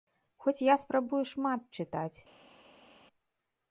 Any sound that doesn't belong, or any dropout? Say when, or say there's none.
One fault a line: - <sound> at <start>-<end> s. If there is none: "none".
none